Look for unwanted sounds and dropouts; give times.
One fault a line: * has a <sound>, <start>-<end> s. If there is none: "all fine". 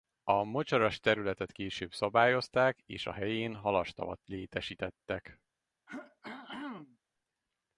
* has a throat clearing, 5.9-7.0 s